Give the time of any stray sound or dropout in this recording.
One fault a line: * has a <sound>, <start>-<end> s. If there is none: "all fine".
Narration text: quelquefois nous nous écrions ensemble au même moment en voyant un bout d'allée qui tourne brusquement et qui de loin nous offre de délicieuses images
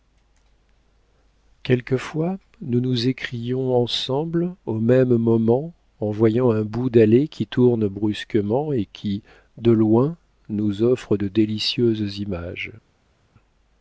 all fine